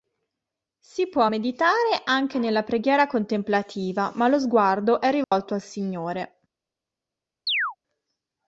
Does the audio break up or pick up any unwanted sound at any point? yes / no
yes